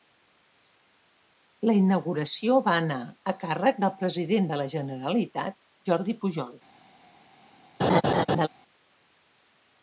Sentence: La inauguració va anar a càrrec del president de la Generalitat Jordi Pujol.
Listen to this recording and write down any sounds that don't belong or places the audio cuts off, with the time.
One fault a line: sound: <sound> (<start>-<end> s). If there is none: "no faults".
sound: laugh (7.8-8.5 s)